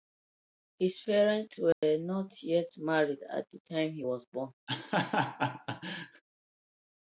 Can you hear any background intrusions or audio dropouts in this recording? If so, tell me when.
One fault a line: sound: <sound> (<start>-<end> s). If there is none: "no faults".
sound: dropout (1.7-1.8 s)
sound: laugh (4.7-6.2 s)